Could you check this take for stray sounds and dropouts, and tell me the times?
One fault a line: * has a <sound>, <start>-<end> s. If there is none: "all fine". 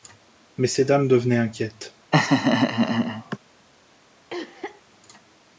* has a laugh, 2.1-3.4 s
* has a cough, 4.3-4.8 s